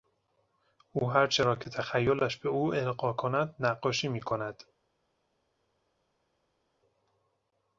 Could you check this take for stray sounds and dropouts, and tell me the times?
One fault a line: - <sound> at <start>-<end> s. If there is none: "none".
none